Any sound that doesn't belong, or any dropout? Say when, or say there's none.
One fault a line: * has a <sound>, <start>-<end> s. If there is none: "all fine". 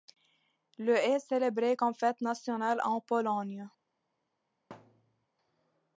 * has a thud, 4.7-5.3 s